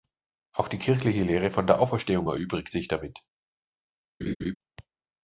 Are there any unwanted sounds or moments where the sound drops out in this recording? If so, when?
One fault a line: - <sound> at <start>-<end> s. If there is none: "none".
- laugh at 4.2-4.5 s